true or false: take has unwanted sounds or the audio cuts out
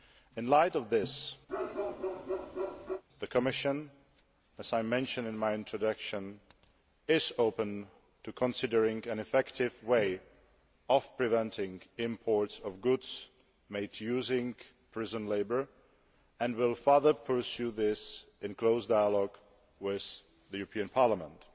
true